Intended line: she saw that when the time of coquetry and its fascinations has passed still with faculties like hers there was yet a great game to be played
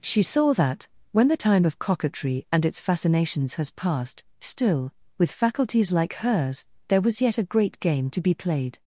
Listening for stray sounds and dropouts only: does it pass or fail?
pass